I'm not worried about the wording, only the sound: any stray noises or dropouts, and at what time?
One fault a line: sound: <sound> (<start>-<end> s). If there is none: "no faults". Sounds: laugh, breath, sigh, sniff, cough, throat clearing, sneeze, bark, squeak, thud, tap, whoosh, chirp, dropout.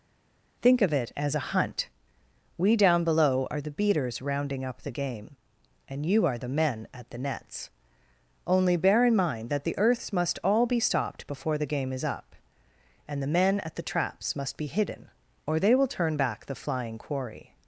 no faults